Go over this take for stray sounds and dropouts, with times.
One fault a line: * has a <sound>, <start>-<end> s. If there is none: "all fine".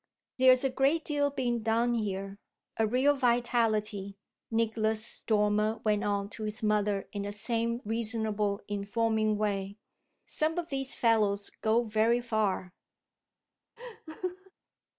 * has a laugh, 13.8-14.5 s